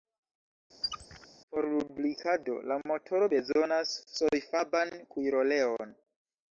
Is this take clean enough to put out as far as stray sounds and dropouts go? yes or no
no